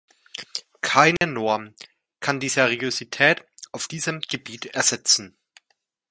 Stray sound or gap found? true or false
true